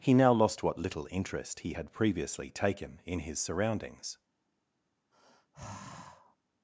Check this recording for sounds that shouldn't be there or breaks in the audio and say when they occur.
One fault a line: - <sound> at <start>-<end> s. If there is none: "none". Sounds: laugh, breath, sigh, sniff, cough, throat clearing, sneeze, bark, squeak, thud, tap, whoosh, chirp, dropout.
- sigh at 5.1-6.4 s